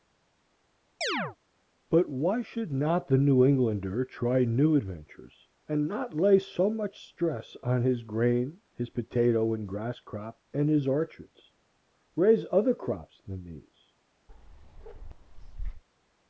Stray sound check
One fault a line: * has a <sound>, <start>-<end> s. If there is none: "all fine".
* has a chirp, 1.0-1.4 s
* has a bark, 14.3-15.8 s